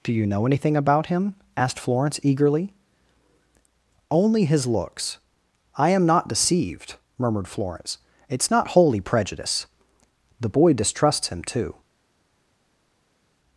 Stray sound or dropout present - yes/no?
no